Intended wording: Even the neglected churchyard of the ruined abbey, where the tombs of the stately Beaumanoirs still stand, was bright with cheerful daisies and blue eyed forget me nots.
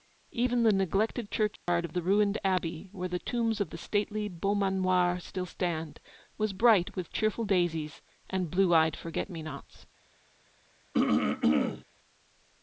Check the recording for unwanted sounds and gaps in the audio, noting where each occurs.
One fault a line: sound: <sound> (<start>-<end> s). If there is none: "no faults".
sound: dropout (1.6-1.7 s)
sound: throat clearing (10.9-11.8 s)